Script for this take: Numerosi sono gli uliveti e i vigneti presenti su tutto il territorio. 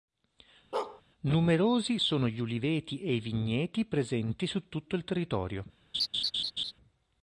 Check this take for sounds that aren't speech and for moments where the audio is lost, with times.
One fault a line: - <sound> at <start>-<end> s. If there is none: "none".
- bark at 0.7-1.0 s
- laugh at 5.9-6.7 s